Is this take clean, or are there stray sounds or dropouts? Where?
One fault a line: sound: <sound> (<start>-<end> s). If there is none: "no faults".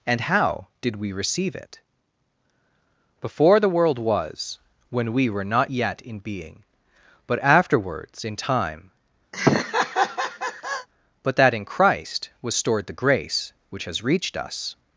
sound: laugh (9.3-10.9 s)